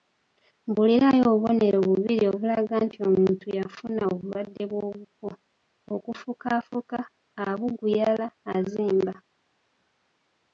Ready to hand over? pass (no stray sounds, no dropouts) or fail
pass